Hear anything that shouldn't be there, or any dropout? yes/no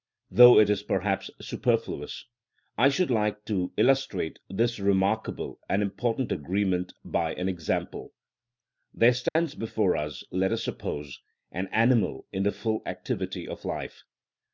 yes